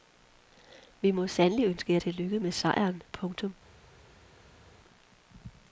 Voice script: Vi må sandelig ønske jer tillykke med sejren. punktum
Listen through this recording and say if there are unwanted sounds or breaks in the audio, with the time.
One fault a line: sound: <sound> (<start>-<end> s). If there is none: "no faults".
no faults